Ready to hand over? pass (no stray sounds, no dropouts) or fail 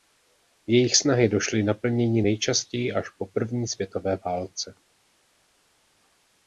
pass